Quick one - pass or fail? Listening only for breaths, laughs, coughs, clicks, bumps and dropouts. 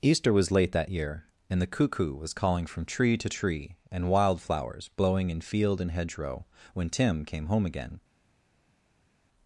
pass